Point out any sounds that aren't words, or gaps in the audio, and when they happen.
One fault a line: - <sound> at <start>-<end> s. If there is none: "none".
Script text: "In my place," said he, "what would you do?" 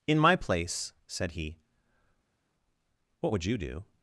none